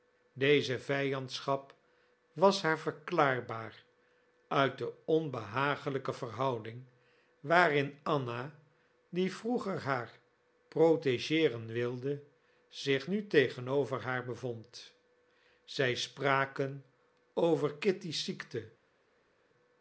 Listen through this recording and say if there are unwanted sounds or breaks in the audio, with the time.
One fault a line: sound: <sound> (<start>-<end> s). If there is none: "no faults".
no faults